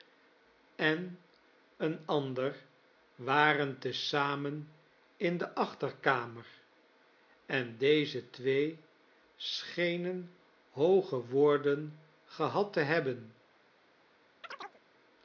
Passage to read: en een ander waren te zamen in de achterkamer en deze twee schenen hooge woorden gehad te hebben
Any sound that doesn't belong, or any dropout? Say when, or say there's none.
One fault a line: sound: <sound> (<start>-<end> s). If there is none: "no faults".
sound: chirp (14.4-14.8 s)